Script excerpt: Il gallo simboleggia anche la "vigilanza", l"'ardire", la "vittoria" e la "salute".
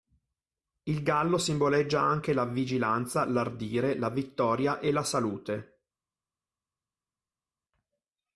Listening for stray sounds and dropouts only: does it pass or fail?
pass